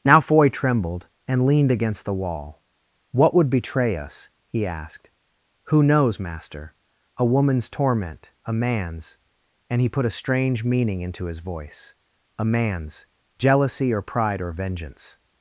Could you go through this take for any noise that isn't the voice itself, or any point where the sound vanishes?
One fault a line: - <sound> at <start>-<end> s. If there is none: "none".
none